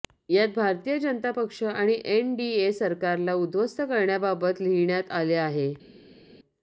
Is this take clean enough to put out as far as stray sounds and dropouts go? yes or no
yes